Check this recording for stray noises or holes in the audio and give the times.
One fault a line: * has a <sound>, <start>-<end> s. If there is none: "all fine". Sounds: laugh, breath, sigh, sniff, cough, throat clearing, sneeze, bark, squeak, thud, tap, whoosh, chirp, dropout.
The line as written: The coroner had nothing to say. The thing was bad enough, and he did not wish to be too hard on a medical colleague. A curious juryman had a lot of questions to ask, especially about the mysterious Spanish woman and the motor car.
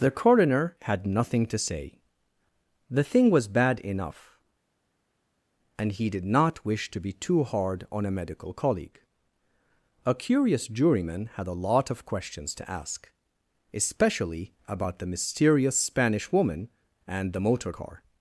all fine